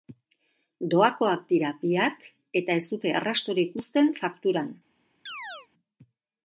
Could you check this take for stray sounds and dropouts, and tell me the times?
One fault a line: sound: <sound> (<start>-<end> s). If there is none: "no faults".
sound: chirp (5.3-5.7 s)